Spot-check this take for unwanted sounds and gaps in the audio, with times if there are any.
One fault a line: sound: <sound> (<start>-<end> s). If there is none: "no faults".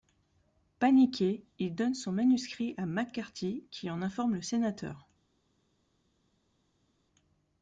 no faults